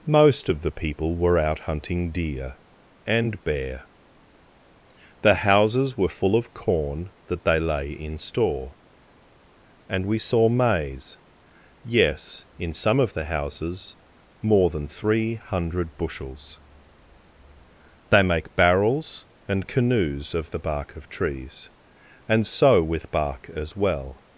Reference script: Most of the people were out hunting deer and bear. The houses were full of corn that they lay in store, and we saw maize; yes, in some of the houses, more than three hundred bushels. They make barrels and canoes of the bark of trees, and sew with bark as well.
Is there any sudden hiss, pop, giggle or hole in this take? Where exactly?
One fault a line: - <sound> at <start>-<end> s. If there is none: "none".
none